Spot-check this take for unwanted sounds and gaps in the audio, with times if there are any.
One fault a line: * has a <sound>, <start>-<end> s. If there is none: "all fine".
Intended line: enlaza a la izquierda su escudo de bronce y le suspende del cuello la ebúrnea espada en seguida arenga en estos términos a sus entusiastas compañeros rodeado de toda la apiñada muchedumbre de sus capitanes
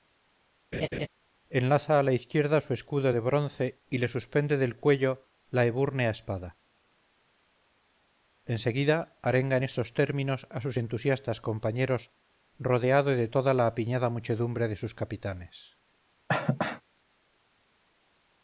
* has a laugh, 0.7-1.1 s
* has a cough, 16.3-16.8 s